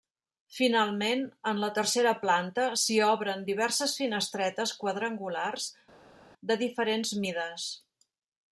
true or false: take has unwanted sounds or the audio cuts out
false